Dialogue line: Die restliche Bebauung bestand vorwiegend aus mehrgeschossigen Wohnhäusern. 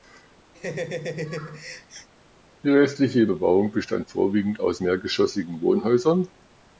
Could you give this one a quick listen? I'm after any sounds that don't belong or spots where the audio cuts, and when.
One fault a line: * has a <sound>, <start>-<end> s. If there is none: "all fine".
* has a laugh, 0.5-2.1 s